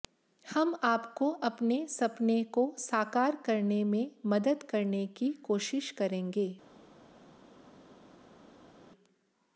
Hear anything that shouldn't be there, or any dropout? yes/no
no